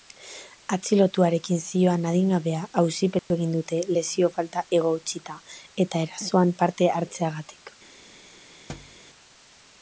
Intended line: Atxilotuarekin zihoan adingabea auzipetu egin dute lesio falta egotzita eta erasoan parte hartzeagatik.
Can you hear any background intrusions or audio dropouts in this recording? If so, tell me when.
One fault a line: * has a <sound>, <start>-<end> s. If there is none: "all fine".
* has a dropout, 3.2-3.3 s
* has a thud, 8.7-9.0 s